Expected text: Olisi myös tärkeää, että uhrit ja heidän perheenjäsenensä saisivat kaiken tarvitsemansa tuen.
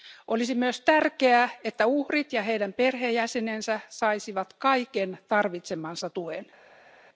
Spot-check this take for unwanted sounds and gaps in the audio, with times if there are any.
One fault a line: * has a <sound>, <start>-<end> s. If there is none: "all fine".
all fine